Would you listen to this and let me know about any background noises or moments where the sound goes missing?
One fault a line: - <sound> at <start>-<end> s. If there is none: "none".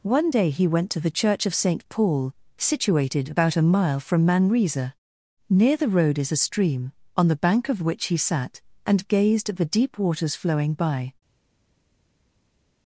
none